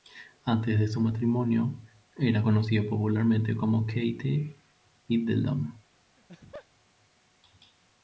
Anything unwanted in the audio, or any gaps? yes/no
yes